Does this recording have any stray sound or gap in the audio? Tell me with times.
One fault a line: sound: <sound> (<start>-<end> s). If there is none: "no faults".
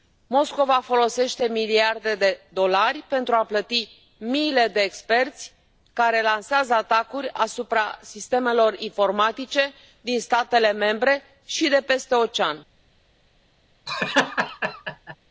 sound: laugh (13.9-15.2 s)